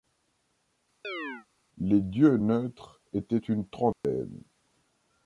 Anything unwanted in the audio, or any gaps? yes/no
yes